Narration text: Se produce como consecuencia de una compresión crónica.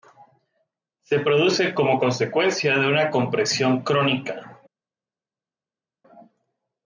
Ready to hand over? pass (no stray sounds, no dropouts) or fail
pass